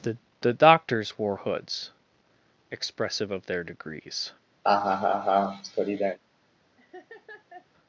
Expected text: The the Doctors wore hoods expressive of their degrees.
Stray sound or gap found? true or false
true